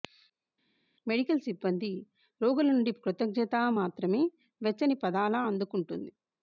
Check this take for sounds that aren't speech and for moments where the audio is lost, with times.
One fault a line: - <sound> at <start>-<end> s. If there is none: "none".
none